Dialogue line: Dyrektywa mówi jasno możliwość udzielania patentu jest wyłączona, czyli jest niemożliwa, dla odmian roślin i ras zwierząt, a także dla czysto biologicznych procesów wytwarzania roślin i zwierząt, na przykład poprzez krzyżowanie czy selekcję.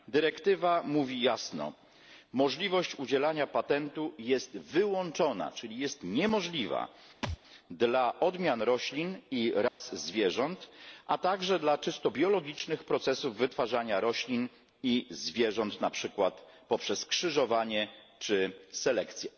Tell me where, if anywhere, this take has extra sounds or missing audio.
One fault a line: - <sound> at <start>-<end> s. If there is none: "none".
- thud at 7.2-7.4 s
- dropout at 9.7-9.8 s